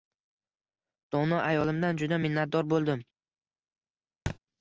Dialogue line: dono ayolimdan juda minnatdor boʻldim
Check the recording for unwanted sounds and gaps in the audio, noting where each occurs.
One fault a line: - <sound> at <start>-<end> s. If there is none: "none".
- thud at 4.3-4.4 s